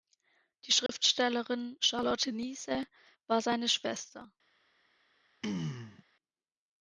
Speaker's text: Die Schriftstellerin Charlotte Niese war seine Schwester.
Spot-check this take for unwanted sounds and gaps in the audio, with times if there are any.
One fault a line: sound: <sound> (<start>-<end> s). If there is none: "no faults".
sound: dropout (0.9-0.9 s)
sound: throat clearing (5.4-6.0 s)